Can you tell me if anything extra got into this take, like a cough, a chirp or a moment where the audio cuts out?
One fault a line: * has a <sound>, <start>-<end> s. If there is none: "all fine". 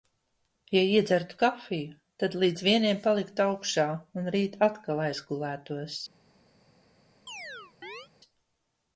* has a chirp, 7.3-8.1 s